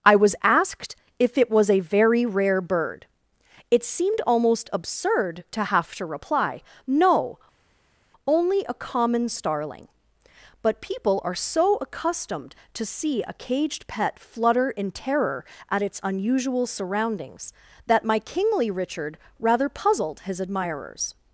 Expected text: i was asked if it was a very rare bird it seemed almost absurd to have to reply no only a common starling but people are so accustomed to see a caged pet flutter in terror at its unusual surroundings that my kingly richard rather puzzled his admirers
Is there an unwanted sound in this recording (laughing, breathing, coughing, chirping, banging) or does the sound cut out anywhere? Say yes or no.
no